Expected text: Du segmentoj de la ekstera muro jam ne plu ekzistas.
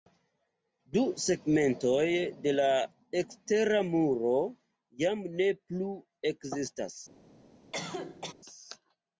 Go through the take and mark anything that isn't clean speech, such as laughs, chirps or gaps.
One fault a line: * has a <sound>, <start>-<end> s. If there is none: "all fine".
* has a cough, 7.7-8.3 s